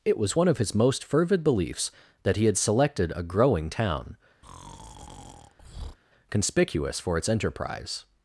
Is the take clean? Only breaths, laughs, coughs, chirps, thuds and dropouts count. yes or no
no